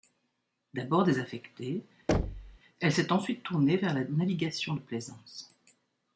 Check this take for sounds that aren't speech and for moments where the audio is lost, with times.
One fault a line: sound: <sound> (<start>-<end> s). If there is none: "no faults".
sound: thud (2.1-2.6 s)